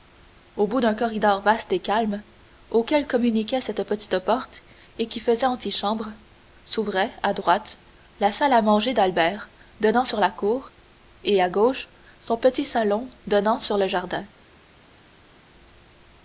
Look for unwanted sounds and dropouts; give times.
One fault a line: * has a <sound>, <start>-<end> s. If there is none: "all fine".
all fine